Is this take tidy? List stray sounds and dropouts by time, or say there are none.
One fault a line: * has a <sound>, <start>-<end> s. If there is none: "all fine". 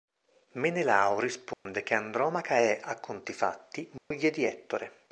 * has a dropout, 1.5-1.7 s
* has a dropout, 4.0-4.1 s